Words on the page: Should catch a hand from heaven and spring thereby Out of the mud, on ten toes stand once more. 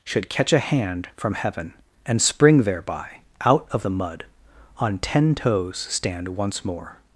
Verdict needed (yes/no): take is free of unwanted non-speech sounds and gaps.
yes